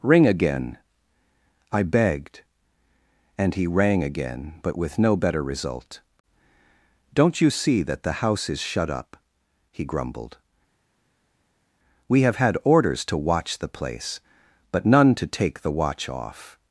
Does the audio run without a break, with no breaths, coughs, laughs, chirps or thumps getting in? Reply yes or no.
yes